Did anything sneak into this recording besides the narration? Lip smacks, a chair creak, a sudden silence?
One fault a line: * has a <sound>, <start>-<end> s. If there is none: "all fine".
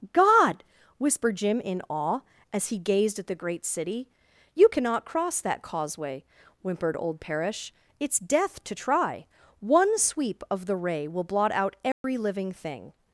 * has a dropout, 11.9-12.0 s